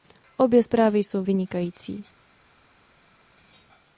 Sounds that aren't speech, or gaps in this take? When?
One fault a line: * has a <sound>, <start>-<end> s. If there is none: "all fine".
all fine